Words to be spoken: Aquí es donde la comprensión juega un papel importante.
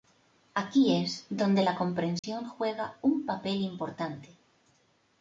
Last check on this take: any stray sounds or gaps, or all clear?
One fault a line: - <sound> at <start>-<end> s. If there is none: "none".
- dropout at 2.2-2.2 s